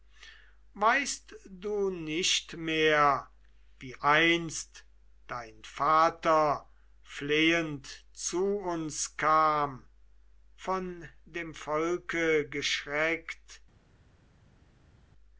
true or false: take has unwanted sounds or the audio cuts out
false